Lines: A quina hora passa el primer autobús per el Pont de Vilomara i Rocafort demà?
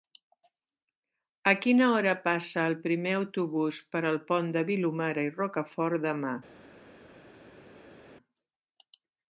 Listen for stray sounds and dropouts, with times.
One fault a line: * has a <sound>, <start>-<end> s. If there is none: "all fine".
all fine